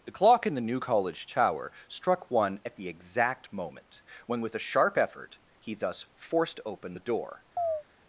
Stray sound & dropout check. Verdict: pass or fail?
fail